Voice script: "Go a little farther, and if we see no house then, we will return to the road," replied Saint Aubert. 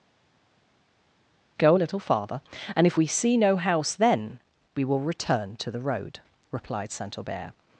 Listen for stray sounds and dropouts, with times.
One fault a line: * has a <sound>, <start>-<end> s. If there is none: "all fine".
all fine